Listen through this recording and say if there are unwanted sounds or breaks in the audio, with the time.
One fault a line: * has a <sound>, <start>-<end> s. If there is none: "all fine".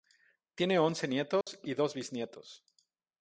* has a dropout, 1.4-1.5 s